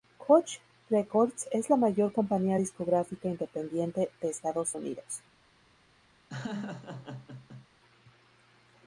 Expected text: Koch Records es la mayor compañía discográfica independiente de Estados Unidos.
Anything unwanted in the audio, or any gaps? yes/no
yes